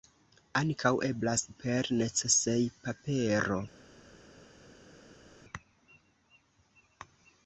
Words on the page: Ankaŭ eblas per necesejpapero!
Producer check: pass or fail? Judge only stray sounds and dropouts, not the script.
pass